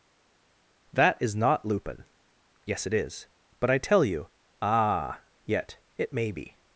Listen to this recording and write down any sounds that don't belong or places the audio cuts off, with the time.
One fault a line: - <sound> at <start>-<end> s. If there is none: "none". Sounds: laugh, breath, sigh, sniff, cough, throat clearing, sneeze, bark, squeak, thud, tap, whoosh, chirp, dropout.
none